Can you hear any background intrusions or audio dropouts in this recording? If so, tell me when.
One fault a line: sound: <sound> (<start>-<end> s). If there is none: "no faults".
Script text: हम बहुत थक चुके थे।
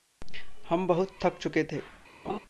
sound: laugh (2.2-2.4 s)